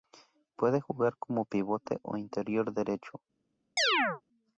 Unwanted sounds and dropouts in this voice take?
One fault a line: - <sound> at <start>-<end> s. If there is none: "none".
- chirp at 3.8-4.2 s